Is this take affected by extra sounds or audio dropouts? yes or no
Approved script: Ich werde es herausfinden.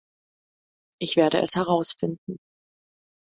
no